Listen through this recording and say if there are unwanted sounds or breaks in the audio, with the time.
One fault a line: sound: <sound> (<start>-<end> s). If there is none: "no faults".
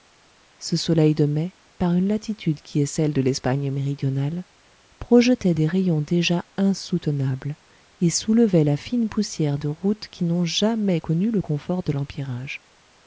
no faults